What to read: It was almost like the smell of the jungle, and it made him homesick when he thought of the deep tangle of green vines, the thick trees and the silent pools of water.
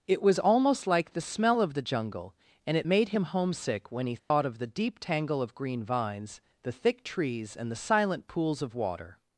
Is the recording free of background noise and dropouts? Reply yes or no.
no